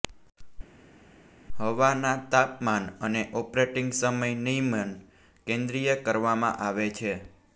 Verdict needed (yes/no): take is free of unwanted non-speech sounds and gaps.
yes